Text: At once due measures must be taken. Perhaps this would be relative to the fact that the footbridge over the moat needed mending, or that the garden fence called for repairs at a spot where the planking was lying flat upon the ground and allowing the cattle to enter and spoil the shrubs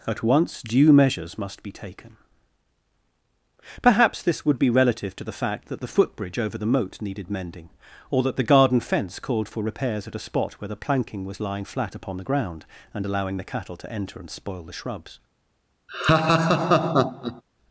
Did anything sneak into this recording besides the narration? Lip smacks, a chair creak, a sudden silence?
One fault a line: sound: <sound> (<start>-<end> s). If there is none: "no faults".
sound: laugh (15.9-17.4 s)